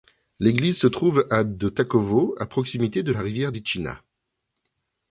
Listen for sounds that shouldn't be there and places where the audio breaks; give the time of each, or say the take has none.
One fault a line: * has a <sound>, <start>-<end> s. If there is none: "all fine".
all fine